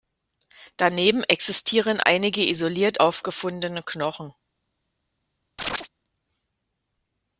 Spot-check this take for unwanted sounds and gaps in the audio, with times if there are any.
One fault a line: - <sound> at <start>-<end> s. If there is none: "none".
- chirp at 5.6-5.9 s